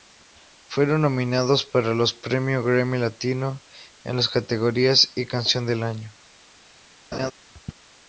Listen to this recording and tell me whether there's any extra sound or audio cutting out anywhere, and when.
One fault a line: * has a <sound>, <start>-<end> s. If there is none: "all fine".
* has a laugh, 7.1-7.3 s